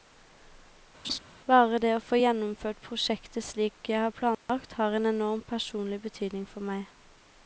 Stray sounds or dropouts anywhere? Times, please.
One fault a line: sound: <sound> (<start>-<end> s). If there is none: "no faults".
sound: laugh (1.0-1.2 s)
sound: dropout (4.3-4.5 s)